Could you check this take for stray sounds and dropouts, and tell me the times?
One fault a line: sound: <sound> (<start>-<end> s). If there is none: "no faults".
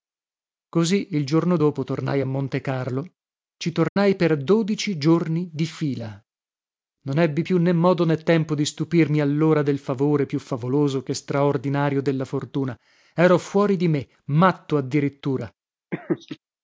sound: dropout (3.9-4.0 s)
sound: laugh (15.9-16.4 s)